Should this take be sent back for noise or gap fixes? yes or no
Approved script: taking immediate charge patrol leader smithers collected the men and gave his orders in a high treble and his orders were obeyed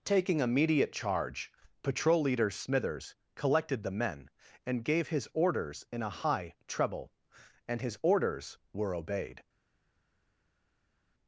no